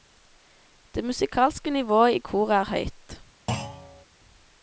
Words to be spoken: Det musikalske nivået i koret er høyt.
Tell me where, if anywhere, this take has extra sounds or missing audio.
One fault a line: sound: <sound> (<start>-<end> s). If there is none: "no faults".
sound: thud (3.5-4.1 s)